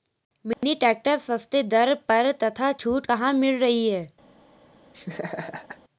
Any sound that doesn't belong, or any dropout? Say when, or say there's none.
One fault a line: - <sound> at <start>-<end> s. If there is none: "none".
- dropout at 0.5-0.6 s
- laugh at 4.9-5.8 s